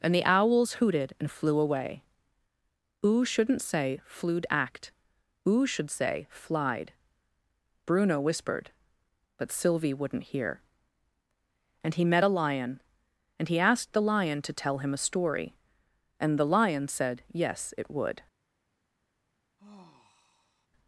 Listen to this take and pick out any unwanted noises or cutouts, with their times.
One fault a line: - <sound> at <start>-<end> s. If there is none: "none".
- sigh at 19.6-20.7 s